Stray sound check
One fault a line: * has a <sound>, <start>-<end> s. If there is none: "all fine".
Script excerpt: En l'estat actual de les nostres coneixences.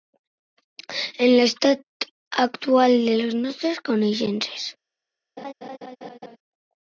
* has a laugh, 5.4-6.4 s